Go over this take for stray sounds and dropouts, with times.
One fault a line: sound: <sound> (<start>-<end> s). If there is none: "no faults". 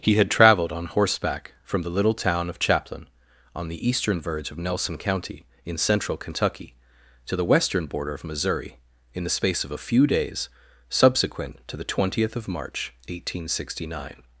no faults